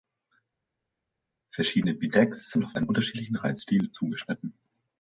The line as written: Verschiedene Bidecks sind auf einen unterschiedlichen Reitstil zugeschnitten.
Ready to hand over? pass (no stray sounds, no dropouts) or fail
pass